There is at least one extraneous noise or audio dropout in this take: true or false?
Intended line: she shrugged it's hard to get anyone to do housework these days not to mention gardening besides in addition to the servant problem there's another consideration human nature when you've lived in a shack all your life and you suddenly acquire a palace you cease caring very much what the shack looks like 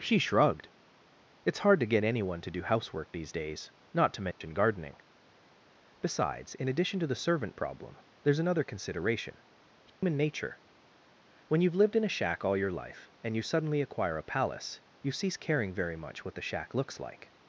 true